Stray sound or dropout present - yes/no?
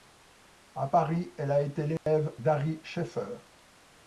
yes